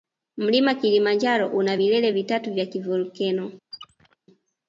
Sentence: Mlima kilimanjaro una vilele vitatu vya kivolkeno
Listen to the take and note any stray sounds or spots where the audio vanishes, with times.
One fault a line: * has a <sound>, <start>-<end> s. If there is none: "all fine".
* has a squeak, 3.7-4.2 s